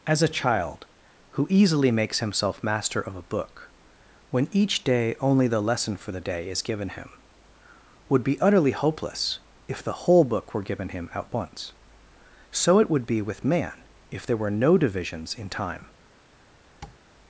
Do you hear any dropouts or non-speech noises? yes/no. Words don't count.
yes